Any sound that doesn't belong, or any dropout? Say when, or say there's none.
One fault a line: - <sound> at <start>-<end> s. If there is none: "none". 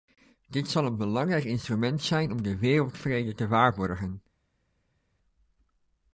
none